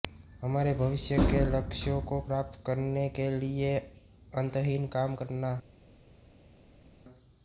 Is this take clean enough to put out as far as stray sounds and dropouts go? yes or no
yes